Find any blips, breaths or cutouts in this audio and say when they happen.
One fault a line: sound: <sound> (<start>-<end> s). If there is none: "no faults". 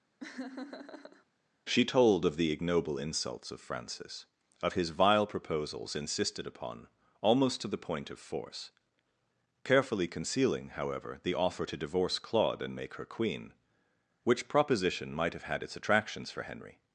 sound: laugh (0.2-1.2 s)